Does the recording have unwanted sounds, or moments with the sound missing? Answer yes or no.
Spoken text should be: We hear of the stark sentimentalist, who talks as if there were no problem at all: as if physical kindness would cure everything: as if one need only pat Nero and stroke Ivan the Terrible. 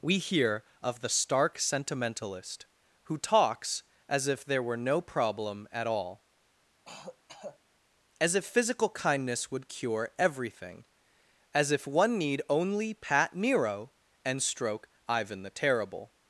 yes